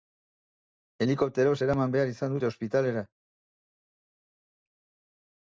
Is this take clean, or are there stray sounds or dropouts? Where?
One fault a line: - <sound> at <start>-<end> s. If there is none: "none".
none